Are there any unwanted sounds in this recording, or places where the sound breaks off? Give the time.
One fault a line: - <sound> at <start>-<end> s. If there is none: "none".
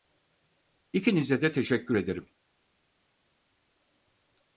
none